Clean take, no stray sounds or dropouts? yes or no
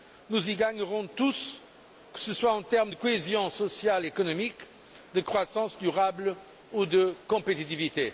yes